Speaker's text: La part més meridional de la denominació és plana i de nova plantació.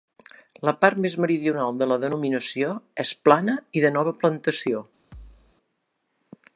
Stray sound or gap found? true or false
true